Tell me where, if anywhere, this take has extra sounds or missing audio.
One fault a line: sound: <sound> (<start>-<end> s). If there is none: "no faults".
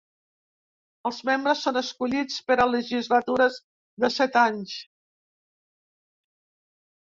no faults